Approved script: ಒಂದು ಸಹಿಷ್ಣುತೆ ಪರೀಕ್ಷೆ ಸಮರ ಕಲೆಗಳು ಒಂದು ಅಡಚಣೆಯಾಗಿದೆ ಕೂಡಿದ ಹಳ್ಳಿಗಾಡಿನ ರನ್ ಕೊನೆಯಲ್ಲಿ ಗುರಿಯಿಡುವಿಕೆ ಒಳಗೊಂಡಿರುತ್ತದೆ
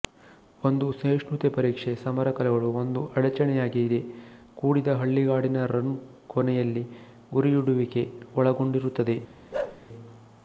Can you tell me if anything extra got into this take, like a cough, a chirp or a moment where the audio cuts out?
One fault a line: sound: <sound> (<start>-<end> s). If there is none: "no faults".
sound: bark (9.5-9.8 s)